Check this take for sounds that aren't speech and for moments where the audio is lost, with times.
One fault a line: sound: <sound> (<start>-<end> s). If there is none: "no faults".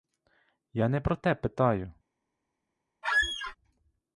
sound: squeak (3.0-3.6 s)